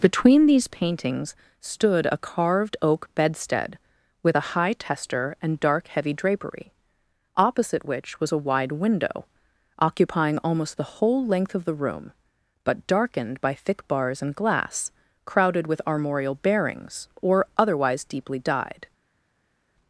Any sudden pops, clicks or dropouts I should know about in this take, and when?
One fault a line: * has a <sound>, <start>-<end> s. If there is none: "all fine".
all fine